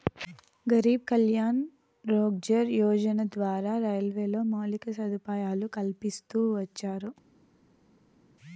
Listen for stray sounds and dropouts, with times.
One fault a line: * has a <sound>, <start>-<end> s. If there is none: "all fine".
all fine